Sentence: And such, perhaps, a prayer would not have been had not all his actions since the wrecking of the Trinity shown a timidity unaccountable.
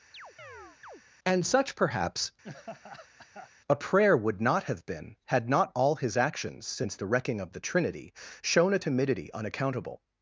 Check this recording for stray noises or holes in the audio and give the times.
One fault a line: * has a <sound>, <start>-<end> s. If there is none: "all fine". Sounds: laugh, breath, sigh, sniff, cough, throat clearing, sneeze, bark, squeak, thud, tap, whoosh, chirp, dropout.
* has a chirp, 0.1-1.0 s
* has a laugh, 2.4-3.5 s